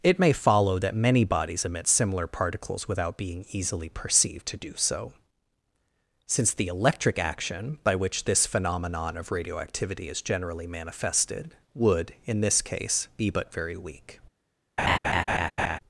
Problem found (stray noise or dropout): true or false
true